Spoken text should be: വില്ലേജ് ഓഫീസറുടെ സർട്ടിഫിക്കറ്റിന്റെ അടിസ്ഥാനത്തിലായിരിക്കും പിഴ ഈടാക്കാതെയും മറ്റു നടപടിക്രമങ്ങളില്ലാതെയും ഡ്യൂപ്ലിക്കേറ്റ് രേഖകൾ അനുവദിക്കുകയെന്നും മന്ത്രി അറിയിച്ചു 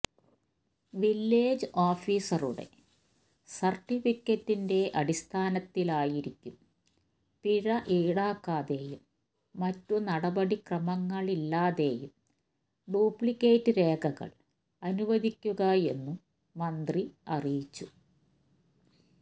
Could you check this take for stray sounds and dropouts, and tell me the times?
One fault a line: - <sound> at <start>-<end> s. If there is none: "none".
none